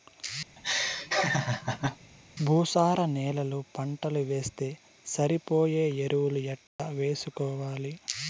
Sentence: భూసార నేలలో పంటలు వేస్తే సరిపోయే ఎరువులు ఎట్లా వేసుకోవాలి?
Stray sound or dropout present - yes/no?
yes